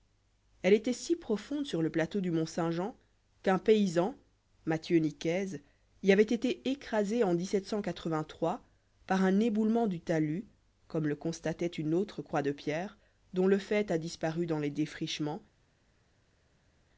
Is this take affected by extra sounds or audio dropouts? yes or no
no